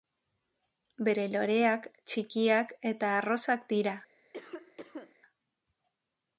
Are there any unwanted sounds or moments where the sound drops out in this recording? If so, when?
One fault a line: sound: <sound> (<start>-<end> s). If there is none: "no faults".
sound: cough (4.3-5.2 s)